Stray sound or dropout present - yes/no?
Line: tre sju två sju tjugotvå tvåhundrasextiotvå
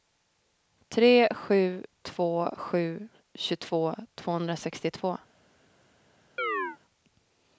yes